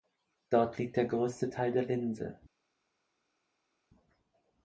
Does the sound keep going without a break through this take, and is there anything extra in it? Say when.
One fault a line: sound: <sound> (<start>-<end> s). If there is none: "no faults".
no faults